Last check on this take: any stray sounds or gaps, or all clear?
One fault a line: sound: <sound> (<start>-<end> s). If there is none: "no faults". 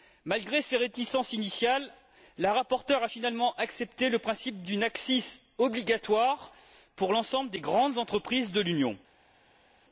no faults